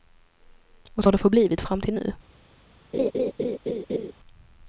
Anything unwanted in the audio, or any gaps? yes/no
yes